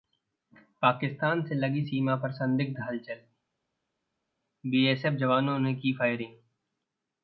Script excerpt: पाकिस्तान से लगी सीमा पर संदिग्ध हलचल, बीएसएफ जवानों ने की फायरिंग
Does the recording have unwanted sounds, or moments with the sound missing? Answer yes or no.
no